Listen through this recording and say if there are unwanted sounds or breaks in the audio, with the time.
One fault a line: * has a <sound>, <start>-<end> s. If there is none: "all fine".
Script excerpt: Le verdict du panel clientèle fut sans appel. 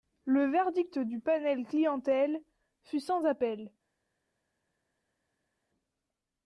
all fine